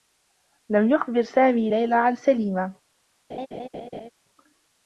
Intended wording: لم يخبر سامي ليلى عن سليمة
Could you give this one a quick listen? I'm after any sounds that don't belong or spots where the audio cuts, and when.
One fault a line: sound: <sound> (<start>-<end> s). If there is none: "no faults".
sound: laugh (3.3-4.1 s)